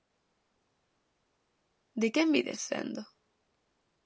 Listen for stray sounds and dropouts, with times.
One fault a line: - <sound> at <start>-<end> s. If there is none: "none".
none